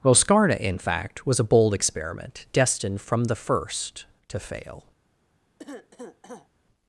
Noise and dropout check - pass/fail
fail